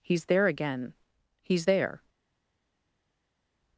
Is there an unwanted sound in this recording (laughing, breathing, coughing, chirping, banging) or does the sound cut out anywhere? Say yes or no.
no